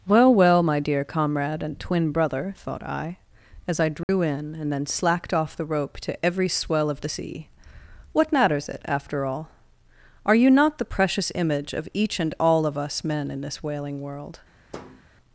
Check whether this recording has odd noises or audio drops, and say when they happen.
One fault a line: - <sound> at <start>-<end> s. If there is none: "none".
- dropout at 4.0-4.1 s
- thud at 14.7-15.0 s